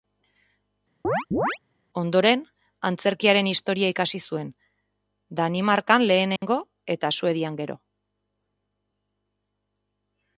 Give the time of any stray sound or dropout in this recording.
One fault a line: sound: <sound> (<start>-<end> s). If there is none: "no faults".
sound: chirp (1.0-1.6 s)
sound: dropout (6.4-6.4 s)